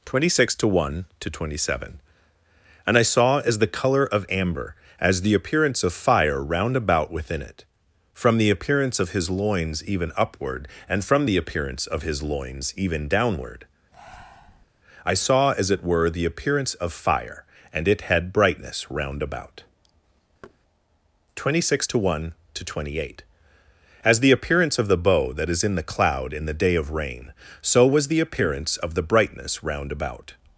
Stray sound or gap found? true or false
true